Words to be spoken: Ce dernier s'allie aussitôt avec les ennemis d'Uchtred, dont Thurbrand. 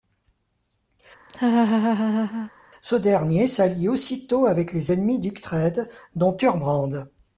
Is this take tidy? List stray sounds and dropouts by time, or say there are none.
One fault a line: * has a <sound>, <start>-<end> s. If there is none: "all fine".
* has a laugh, 1.3-2.5 s